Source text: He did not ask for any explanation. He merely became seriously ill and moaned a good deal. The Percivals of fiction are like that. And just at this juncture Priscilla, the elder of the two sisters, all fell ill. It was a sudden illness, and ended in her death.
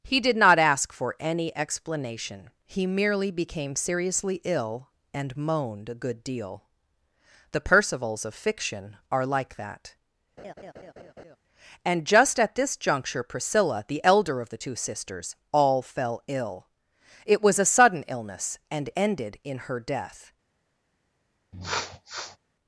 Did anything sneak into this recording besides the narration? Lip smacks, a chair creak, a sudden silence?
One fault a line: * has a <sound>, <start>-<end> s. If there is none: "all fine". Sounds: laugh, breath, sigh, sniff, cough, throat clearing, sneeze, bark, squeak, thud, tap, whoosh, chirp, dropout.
* has a laugh, 10.4-11.4 s
* has a sniff, 21.5-22.4 s